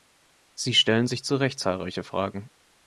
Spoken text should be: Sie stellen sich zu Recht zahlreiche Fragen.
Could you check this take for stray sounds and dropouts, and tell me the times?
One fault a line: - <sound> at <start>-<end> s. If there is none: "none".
none